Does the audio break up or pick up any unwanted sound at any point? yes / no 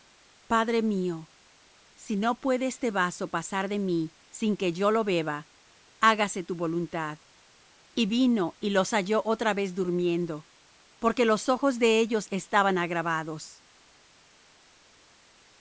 no